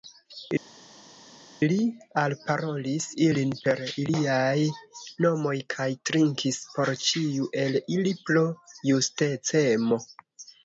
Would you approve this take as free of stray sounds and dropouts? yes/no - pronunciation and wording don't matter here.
yes